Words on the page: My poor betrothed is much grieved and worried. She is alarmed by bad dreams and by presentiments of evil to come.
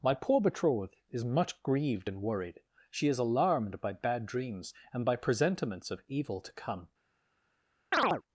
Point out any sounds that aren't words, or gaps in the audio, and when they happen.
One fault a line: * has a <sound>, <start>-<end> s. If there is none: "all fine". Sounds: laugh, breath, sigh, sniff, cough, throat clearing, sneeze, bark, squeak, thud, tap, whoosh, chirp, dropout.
* has a chirp, 7.9-8.2 s